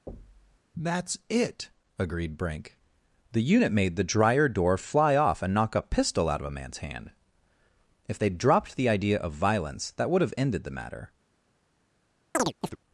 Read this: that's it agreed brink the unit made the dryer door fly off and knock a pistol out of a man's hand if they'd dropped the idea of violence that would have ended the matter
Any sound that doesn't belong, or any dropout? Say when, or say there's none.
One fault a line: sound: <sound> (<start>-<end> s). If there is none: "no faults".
sound: thud (0.1-0.6 s)
sound: chirp (12.3-12.8 s)